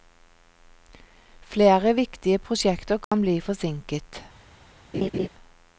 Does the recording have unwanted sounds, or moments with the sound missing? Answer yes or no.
yes